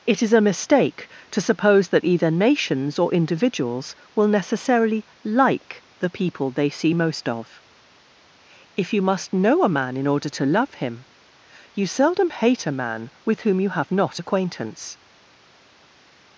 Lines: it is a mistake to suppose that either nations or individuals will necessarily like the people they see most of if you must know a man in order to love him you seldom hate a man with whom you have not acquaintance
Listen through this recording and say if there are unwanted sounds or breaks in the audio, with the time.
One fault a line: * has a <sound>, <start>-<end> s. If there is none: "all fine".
all fine